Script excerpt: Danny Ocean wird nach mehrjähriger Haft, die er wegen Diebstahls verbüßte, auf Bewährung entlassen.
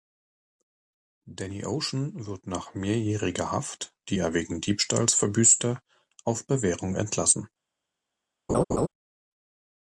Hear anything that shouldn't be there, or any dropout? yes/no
yes